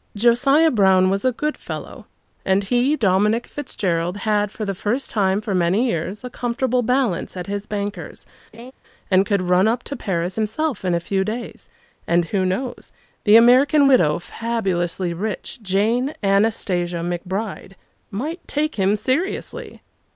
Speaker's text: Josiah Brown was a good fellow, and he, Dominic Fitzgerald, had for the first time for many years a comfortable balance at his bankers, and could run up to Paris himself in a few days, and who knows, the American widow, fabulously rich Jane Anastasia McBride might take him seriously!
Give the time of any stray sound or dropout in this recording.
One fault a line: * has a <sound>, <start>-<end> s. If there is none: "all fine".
* has a laugh, 8.5-8.7 s